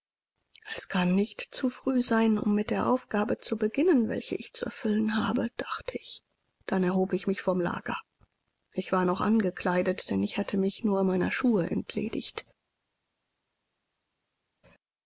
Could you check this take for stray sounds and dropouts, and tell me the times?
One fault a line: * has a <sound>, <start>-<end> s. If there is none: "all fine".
all fine